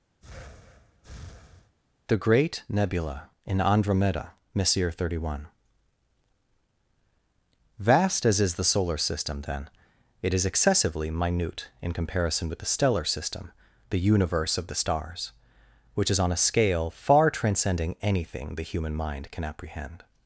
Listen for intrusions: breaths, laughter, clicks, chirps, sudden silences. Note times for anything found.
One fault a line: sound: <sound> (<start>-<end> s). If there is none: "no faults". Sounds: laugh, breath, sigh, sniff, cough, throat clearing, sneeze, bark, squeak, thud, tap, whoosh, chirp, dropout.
sound: breath (0.2-1.8 s)